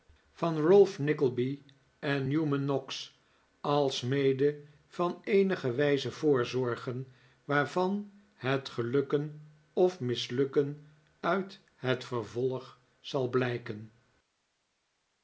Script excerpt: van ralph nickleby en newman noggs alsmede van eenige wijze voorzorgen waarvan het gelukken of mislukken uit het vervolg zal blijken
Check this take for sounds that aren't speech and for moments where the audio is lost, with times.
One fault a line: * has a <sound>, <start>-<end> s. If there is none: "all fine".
all fine